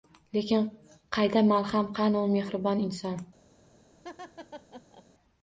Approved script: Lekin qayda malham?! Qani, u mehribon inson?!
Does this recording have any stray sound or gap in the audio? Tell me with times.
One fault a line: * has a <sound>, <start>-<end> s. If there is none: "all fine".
* has a laugh, 4.0-5.0 s